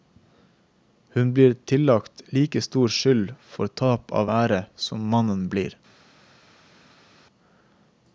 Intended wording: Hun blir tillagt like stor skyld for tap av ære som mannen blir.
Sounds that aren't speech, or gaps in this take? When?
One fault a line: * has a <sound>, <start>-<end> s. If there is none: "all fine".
all fine